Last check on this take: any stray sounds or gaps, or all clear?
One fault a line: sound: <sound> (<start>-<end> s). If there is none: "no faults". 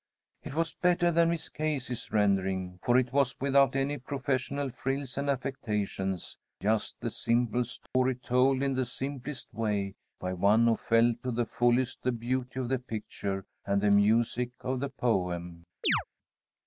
sound: dropout (7.9-7.9 s)
sound: chirp (15.8-16.0 s)